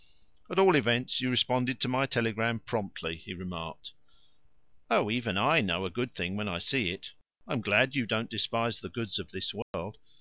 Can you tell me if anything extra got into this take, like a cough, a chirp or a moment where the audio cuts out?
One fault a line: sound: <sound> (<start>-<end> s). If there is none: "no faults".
sound: dropout (9.6-9.7 s)